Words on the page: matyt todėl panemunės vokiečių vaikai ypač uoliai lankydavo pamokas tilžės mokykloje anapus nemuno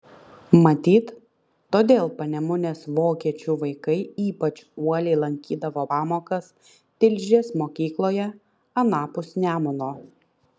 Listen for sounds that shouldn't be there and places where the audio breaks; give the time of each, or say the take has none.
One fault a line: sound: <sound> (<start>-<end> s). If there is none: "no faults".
no faults